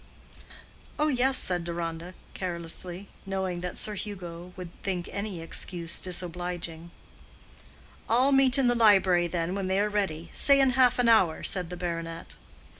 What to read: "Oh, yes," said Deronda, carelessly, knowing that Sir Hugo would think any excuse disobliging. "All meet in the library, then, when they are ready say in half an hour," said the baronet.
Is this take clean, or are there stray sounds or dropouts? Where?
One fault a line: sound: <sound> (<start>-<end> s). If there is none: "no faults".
no faults